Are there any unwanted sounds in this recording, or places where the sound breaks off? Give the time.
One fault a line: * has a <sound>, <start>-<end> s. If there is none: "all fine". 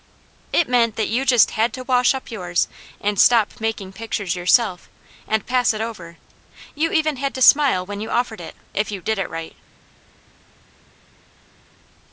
all fine